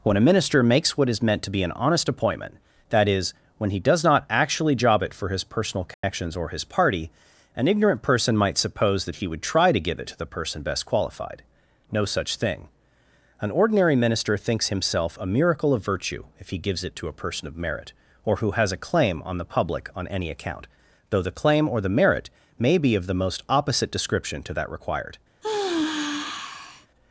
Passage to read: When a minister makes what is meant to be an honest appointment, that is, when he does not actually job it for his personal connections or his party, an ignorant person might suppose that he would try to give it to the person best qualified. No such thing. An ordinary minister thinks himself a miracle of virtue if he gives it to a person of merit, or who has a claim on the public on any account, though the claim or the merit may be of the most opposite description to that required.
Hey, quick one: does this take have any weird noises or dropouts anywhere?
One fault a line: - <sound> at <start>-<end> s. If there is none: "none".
- dropout at 5.9-6.0 s
- sigh at 25.4-26.9 s